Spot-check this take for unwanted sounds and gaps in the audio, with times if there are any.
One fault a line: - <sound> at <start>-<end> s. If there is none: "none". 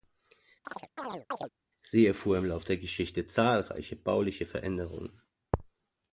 - chirp at 0.6-1.5 s